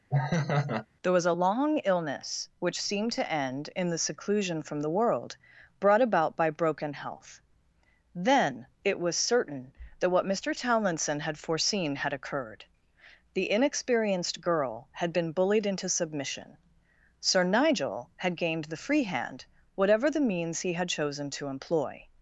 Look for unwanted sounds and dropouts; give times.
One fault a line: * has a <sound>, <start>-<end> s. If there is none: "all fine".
* has a laugh, 0.1-0.9 s